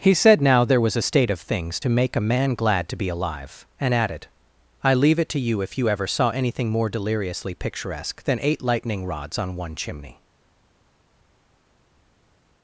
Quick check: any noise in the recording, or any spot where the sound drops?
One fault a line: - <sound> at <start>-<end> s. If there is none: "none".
none